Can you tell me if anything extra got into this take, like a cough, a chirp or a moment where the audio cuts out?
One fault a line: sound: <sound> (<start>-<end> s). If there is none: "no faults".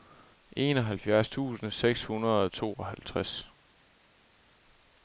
no faults